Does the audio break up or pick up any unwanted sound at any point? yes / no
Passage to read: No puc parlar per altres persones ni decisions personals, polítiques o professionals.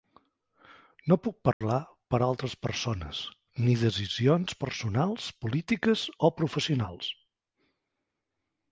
yes